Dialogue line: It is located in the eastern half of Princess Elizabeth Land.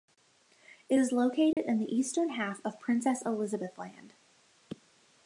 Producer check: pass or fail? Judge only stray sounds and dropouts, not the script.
fail